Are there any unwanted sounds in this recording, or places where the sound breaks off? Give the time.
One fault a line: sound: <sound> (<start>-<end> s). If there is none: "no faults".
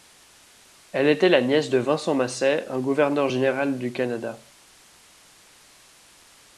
no faults